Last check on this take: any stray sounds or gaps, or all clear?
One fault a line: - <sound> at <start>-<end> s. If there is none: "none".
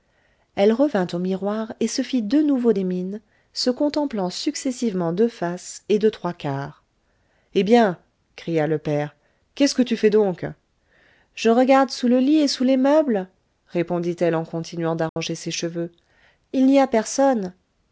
- dropout at 15.1-15.2 s